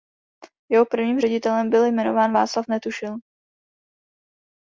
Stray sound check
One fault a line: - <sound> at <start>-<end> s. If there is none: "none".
none